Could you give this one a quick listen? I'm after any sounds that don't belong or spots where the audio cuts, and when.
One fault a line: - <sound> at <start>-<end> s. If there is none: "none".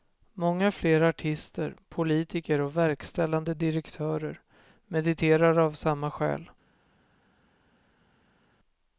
none